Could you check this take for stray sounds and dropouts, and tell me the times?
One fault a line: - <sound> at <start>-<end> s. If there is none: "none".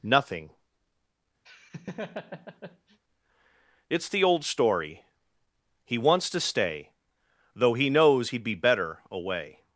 - laugh at 1.4-3.0 s